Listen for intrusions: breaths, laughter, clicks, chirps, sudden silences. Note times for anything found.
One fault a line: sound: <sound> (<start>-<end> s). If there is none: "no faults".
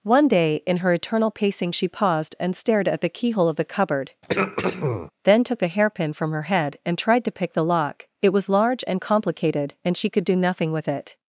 sound: throat clearing (4.2-5.1 s)